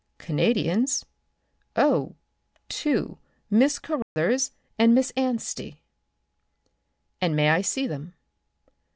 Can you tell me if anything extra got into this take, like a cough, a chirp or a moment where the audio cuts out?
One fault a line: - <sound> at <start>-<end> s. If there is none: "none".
- dropout at 4.0-4.2 s